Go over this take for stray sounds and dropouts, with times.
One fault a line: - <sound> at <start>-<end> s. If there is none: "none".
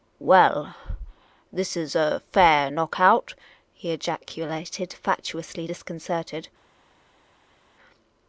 none